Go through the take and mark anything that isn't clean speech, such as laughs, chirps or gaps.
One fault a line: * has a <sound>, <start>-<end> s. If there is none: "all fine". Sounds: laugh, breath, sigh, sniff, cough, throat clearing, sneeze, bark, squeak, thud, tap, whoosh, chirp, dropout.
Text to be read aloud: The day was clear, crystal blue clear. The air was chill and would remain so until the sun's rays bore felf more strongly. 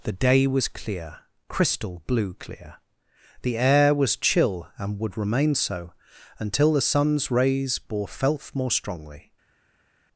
all fine